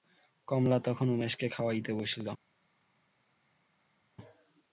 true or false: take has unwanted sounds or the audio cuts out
false